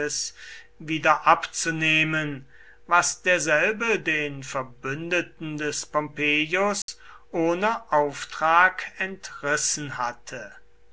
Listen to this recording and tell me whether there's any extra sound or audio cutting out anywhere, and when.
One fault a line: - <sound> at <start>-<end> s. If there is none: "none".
- dropout at 6.8-6.9 s